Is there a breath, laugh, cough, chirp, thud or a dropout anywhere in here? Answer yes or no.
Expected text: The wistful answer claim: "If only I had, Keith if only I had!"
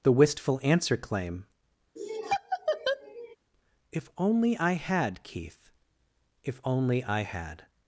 yes